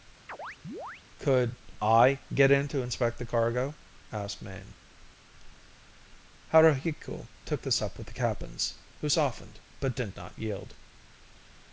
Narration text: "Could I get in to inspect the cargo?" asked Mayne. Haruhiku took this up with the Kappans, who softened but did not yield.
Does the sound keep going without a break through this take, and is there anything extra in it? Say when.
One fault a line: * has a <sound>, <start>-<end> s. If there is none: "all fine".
* has a chirp, 0.3-1.0 s